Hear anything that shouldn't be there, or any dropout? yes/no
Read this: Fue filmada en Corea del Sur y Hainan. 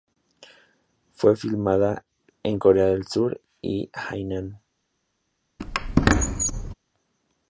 yes